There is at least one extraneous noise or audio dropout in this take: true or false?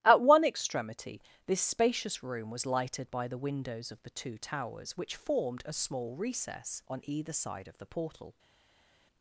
false